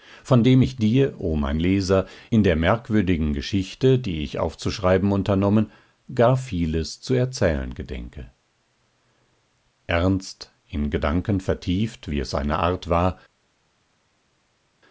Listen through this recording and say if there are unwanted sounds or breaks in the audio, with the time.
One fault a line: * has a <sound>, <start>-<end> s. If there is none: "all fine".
all fine